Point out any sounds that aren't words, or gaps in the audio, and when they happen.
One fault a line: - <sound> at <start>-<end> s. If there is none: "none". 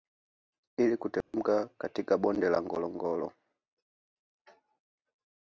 - dropout at 1.2-1.3 s